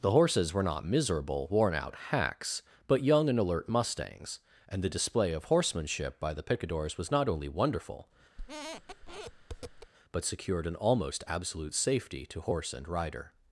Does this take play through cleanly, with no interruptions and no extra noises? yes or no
no